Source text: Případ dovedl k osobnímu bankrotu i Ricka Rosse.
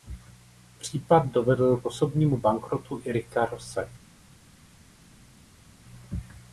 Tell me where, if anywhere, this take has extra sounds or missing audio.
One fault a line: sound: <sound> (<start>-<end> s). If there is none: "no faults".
no faults